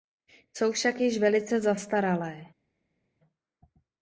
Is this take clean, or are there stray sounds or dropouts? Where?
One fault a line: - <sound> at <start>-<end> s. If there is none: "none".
none